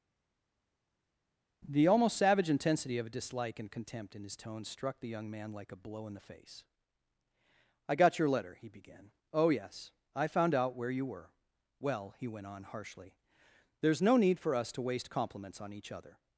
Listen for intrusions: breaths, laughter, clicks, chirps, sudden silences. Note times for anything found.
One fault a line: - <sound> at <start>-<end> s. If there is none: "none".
none